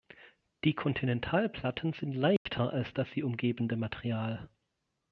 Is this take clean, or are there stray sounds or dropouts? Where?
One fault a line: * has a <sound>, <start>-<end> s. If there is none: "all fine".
* has a dropout, 2.4-2.5 s